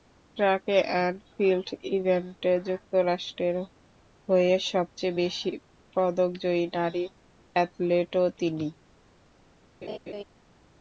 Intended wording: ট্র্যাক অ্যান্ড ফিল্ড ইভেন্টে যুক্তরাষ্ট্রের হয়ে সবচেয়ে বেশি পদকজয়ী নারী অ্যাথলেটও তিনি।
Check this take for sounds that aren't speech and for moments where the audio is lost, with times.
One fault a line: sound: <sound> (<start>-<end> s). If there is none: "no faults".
sound: laugh (9.8-10.2 s)